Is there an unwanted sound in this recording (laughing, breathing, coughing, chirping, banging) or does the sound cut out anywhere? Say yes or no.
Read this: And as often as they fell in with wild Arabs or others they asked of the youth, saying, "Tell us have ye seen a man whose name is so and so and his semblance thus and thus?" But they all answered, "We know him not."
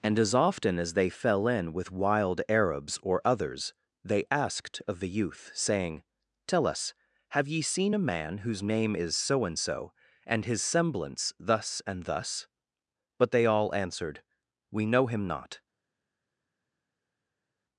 no